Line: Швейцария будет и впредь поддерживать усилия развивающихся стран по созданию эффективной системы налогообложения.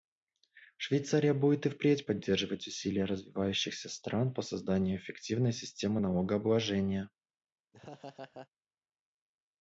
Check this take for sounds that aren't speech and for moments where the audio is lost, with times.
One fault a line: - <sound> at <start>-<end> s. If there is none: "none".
- laugh at 7.7-8.5 s